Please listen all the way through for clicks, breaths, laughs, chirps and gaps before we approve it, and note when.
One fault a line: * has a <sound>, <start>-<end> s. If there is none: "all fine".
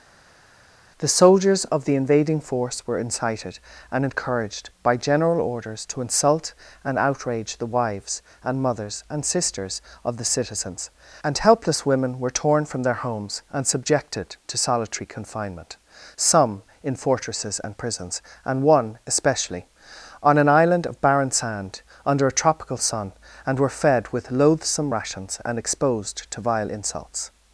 all fine